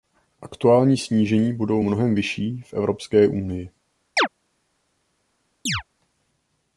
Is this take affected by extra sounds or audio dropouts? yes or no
yes